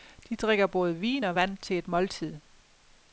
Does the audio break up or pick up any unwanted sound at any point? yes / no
no